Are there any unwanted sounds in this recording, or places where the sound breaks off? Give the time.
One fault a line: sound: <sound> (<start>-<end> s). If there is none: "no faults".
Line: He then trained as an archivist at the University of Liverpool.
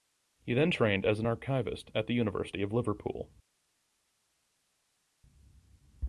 no faults